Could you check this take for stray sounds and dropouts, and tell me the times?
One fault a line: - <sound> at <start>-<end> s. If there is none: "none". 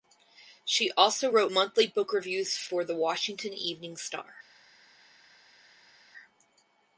none